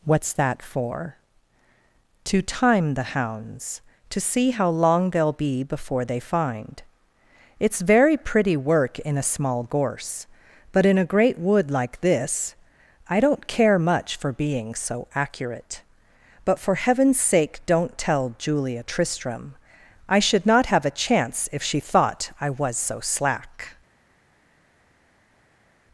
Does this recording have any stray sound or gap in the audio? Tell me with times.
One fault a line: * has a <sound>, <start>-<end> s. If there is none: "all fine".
all fine